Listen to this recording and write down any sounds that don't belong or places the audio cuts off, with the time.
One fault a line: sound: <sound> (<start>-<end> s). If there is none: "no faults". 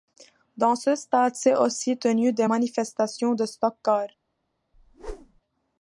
sound: whoosh (4.7-5.4 s)